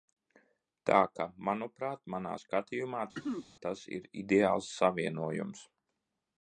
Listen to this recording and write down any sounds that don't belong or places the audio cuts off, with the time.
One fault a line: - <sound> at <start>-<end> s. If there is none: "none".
- throat clearing at 3.1-3.5 s